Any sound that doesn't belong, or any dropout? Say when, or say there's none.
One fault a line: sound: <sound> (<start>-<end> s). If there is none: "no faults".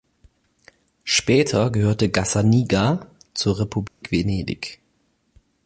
sound: dropout (3.9-4.0 s)